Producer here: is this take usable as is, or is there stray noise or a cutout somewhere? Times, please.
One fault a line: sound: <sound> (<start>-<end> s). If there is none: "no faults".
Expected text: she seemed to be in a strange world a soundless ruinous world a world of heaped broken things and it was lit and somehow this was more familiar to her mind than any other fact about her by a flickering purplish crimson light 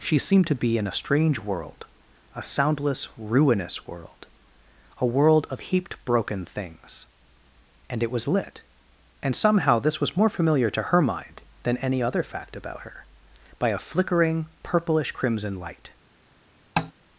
sound: tap (16.8-16.9 s)